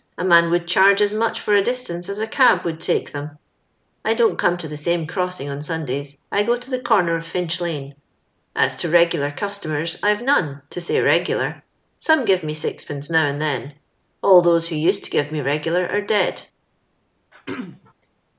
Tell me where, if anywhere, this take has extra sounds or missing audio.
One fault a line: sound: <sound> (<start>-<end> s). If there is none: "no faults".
sound: throat clearing (17.3-17.9 s)